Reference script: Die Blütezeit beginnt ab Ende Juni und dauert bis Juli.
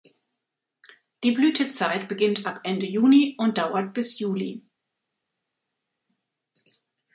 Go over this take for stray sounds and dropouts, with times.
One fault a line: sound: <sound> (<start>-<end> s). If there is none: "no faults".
no faults